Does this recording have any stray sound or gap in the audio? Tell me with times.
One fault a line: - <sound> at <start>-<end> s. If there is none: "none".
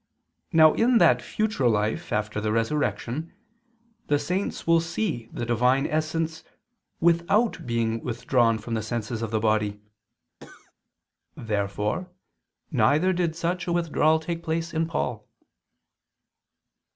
- cough at 10.4-10.7 s